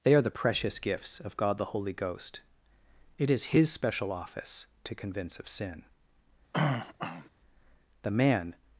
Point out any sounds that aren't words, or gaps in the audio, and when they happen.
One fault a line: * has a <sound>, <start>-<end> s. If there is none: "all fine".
* has a throat clearing, 6.5-7.3 s